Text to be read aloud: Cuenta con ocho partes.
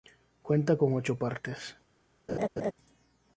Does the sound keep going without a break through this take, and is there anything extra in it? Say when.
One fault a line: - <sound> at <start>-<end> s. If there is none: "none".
- laugh at 2.3-2.7 s